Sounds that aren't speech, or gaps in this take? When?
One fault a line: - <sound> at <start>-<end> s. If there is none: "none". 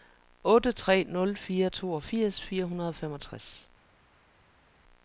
none